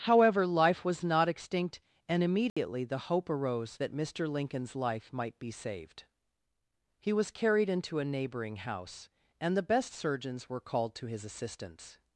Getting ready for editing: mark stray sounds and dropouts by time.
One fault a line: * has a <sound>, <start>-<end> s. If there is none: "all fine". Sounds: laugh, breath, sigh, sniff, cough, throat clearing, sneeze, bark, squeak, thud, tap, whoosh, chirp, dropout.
* has a dropout, 2.5-2.6 s